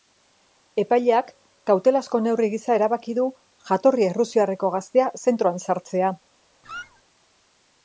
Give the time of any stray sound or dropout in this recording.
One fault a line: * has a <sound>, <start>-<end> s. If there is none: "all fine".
* has a squeak, 6.6-7.0 s